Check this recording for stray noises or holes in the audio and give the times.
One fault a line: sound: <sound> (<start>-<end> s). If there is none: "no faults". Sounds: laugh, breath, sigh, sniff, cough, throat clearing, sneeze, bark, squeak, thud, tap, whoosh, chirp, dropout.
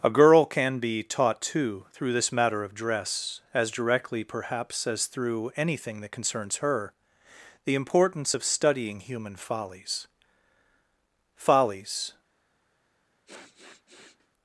sound: sniff (13.3-14.3 s)